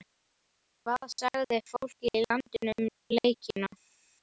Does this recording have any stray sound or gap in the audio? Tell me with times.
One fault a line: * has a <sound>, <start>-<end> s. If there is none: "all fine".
all fine